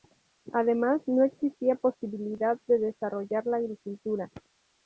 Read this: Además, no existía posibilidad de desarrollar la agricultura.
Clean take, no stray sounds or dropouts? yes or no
yes